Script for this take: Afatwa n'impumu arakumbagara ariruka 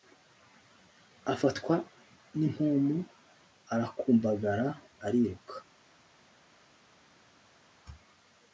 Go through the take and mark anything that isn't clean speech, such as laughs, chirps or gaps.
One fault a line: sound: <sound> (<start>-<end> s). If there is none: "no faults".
no faults